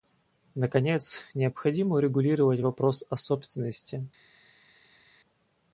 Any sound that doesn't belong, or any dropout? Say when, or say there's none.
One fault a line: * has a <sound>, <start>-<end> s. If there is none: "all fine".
all fine